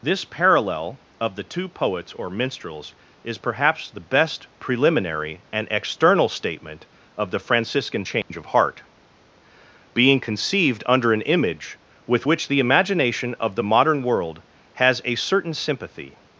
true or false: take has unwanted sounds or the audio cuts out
true